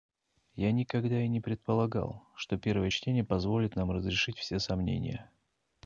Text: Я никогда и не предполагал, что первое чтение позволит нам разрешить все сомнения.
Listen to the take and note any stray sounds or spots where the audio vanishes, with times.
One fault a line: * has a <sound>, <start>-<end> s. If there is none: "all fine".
all fine